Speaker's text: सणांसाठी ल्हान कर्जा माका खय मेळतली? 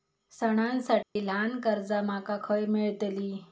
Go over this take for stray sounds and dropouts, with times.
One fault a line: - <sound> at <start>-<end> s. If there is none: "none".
- dropout at 1.0-1.2 s